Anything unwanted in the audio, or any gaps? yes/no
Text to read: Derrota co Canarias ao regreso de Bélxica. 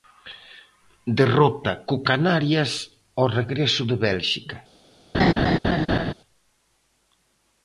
yes